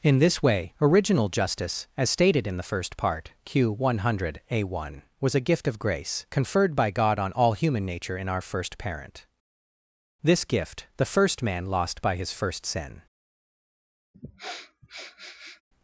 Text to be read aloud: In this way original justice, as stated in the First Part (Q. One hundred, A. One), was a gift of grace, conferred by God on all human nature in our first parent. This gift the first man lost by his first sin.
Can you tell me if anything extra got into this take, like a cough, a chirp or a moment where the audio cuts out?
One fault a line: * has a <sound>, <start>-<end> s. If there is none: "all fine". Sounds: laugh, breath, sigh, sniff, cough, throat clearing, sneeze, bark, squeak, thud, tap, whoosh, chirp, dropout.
* has a sniff, 14.1-15.6 s